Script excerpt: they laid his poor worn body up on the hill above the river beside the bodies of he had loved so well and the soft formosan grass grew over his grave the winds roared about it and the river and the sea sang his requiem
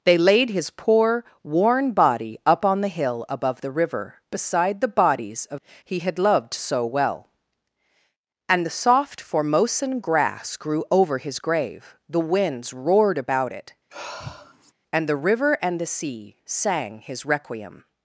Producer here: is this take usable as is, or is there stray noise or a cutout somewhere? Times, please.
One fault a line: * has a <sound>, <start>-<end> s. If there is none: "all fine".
* has a sigh, 13.9-14.7 s